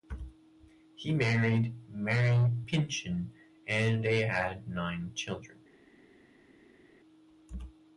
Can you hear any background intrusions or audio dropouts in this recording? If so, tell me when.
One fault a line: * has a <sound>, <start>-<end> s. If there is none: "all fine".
all fine